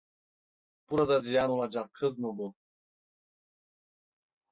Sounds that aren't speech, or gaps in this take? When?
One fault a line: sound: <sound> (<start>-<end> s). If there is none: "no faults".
no faults